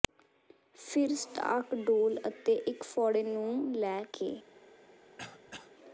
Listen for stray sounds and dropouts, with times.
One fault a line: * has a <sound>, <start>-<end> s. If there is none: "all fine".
* has a throat clearing, 5.2-5.7 s